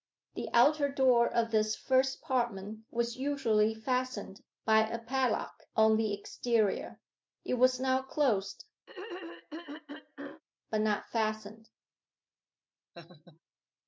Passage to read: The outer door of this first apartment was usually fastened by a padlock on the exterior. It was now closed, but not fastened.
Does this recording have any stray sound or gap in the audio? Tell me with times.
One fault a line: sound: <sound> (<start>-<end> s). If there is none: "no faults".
sound: throat clearing (8.9-10.4 s)
sound: laugh (12.9-13.4 s)